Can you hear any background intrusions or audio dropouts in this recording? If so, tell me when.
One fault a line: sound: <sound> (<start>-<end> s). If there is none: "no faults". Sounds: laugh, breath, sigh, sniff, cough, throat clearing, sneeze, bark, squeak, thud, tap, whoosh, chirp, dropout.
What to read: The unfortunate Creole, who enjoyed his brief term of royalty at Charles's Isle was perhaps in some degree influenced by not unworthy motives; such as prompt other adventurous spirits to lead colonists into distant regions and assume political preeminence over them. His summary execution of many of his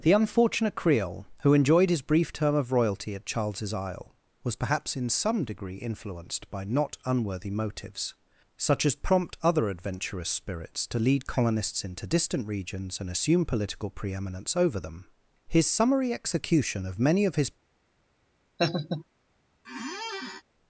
sound: laugh (18.6-19.0 s)
sound: squeak (19.6-20.4 s)